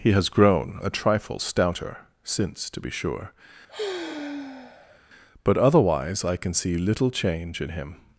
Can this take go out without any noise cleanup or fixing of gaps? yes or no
no